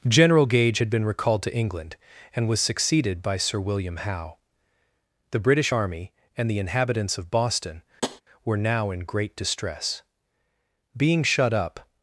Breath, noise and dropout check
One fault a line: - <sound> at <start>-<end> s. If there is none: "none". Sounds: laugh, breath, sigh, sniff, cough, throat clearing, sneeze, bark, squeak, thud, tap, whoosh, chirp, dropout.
- tap at 8.0-8.2 s